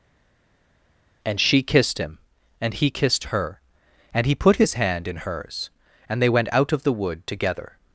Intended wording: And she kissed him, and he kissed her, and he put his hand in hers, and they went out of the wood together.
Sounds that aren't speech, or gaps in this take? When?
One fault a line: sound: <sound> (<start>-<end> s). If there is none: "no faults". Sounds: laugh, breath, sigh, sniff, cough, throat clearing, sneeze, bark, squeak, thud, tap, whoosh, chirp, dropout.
no faults